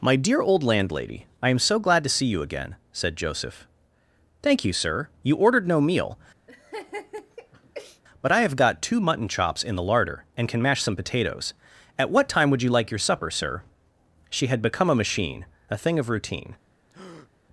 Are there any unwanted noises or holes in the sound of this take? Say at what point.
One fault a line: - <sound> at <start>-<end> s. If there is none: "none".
- laugh at 6.5-8.0 s
- breath at 16.9-17.3 s